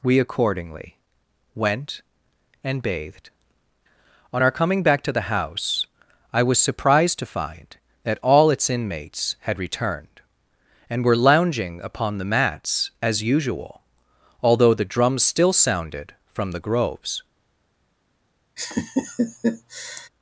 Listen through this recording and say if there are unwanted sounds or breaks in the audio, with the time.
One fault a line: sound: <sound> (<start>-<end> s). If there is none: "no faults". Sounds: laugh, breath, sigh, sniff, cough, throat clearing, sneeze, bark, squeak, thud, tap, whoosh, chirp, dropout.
sound: laugh (18.6-20.1 s)